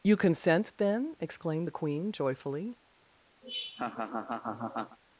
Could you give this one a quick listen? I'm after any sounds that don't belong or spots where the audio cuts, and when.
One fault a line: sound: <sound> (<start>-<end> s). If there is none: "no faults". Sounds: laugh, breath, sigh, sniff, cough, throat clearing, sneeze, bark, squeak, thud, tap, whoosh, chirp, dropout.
sound: laugh (3.4-5.0 s)